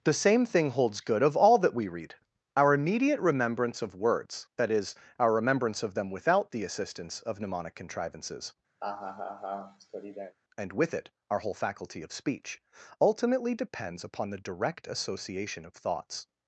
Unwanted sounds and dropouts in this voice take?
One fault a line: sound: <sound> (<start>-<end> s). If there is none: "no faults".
sound: laugh (8.8-10.4 s)